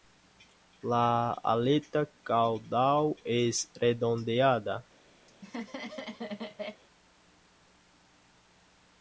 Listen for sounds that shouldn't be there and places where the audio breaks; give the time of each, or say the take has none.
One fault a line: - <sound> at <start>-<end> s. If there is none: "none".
- laugh at 5.3-6.8 s